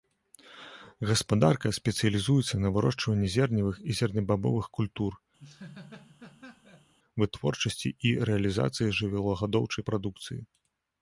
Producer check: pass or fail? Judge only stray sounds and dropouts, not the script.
fail